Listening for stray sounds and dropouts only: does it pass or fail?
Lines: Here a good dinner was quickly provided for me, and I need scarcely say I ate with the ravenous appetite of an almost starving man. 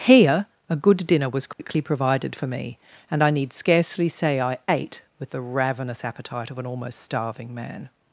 fail